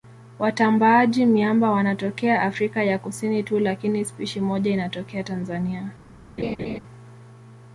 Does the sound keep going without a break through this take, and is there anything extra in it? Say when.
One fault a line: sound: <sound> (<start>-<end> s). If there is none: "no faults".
sound: laugh (6.4-6.8 s)